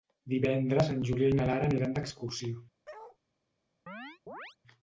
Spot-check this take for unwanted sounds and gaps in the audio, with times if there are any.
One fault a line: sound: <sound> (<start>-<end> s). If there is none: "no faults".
sound: bark (2.8-3.2 s)
sound: chirp (3.9-4.6 s)